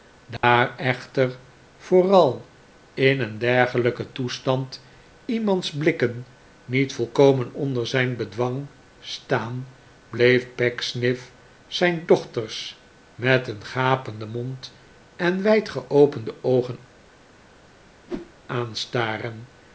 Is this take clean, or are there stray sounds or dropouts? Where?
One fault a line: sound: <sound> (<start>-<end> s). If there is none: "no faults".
sound: dropout (0.4-0.4 s)
sound: whoosh (18.1-18.3 s)